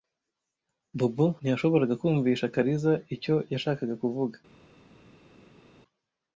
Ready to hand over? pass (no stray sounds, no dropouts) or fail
pass